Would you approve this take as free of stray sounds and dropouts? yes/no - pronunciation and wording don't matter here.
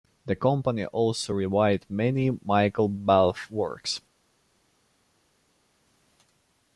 yes